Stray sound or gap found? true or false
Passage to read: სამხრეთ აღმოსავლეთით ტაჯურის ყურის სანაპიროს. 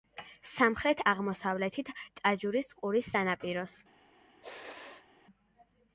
true